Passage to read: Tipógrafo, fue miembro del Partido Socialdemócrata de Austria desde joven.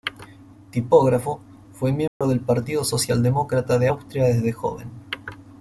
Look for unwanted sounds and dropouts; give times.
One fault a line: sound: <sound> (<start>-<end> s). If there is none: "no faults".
sound: dropout (2.1-2.2 s)